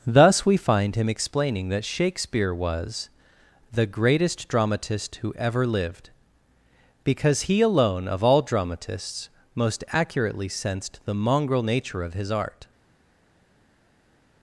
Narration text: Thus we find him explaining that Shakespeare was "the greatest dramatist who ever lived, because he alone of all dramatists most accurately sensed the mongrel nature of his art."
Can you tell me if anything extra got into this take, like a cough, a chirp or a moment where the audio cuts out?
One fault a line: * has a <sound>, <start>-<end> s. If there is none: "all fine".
all fine